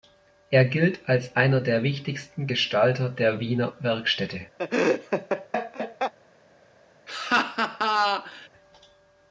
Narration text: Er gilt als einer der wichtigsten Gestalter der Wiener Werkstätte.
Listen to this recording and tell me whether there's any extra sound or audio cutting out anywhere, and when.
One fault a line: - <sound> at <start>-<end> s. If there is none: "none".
- laugh at 4.6-6.1 s
- laugh at 7.1-8.5 s